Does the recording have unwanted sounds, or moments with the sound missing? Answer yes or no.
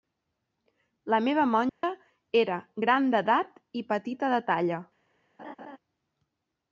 yes